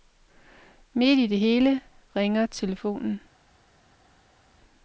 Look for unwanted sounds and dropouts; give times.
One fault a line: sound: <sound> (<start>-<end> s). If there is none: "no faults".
no faults